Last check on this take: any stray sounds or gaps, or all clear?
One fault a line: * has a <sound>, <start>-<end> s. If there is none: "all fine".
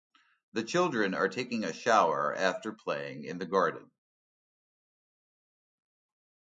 all fine